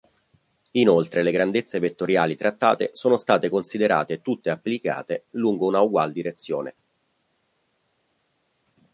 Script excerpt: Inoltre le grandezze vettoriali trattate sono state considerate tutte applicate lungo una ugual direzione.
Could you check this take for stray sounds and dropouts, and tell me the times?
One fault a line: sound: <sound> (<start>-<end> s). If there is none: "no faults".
no faults